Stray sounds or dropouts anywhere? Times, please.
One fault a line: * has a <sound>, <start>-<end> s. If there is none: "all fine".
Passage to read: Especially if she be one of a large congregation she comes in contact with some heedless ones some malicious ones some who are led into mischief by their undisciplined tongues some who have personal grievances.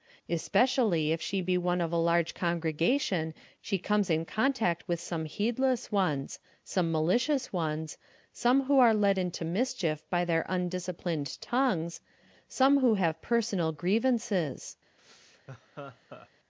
* has a laugh, 15.0-16.3 s